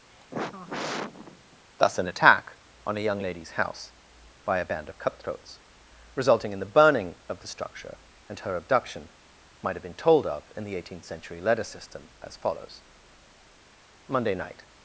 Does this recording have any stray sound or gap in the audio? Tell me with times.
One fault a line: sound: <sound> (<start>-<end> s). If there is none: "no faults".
sound: sigh (0.1-1.6 s)